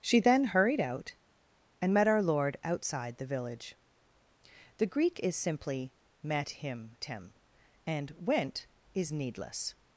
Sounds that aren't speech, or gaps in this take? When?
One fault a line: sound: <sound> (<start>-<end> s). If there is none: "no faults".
no faults